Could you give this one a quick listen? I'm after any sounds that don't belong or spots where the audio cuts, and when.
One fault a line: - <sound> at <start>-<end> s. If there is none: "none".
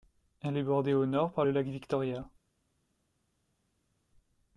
none